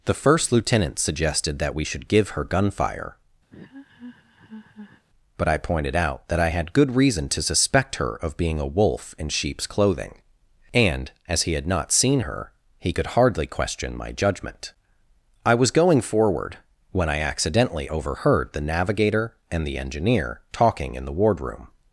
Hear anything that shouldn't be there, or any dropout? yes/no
yes